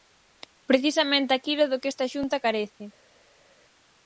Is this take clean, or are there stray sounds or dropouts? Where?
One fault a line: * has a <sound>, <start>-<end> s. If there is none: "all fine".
all fine